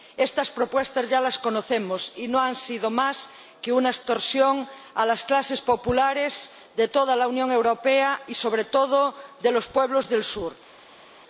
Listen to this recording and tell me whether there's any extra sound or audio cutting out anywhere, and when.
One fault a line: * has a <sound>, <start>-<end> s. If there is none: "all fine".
all fine